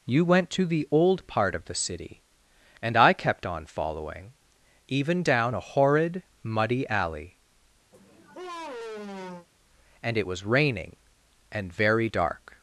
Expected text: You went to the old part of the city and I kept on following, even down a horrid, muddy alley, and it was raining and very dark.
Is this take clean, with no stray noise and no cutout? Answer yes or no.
no